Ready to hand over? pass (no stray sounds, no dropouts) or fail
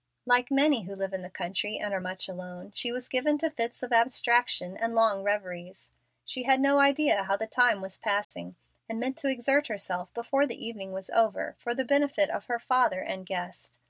fail